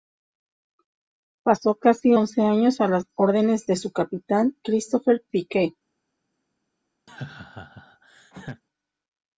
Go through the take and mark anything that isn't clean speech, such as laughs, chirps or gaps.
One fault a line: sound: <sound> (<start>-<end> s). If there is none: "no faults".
sound: laugh (7.1-8.6 s)